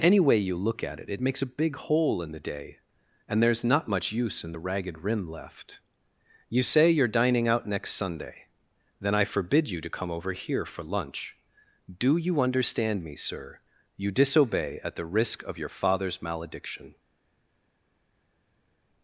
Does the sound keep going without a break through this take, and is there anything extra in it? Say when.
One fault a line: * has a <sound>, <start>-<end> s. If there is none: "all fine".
all fine